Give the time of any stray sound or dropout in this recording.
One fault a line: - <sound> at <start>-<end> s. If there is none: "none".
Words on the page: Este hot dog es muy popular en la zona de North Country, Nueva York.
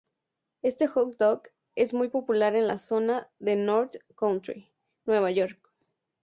none